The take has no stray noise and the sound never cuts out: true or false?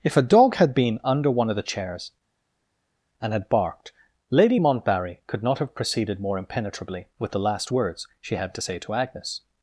true